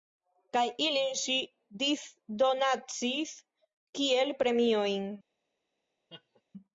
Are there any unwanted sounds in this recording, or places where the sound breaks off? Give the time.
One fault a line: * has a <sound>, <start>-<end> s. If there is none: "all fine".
* has a laugh, 6.1-6.4 s